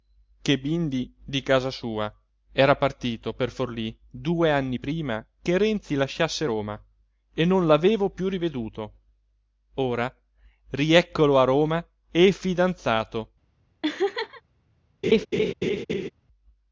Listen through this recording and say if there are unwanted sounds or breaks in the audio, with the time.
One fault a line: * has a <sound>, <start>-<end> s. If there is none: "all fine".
* has a laugh, 13.8-14.4 s
* has a laugh, 15.0-16.1 s